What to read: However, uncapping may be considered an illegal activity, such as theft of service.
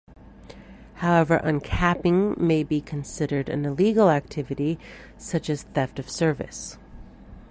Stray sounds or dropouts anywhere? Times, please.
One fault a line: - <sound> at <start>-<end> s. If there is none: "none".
none